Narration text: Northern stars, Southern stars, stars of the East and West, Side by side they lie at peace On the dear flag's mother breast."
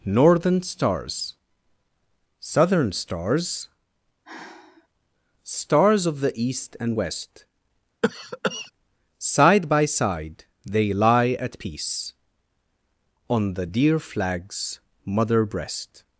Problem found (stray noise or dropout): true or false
true